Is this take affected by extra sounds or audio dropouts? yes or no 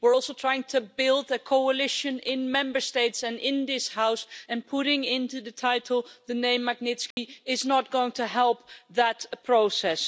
yes